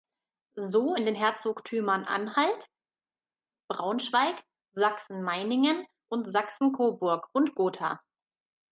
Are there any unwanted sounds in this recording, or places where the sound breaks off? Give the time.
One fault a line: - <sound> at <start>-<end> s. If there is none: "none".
none